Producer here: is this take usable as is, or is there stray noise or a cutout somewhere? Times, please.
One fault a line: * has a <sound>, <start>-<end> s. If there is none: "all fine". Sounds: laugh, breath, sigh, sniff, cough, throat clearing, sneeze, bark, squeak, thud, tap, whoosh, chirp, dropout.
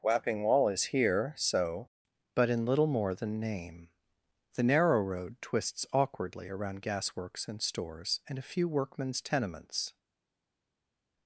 all fine